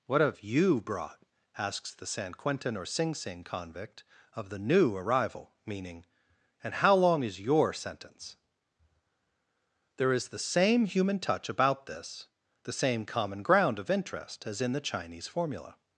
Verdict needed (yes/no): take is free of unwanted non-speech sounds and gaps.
yes